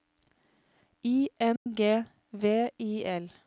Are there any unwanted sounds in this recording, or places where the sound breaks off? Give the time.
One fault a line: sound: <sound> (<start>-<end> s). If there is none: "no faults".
sound: dropout (1.6-1.7 s)